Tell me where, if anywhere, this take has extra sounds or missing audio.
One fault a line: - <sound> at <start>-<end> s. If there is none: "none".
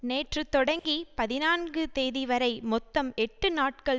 - dropout at 0.8-0.9 s